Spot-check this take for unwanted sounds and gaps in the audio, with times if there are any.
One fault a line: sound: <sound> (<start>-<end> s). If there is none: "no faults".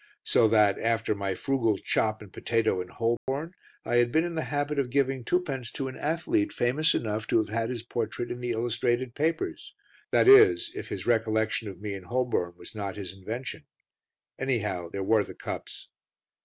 sound: dropout (3.2-3.3 s)